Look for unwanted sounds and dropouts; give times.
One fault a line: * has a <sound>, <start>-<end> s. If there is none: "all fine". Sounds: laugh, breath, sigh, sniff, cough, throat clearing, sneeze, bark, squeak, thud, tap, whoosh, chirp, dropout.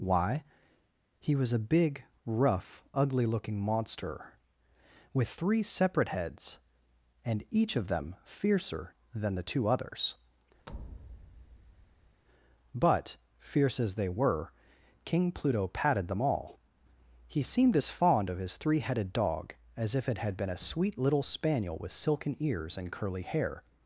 * has a thud, 10.7-12.2 s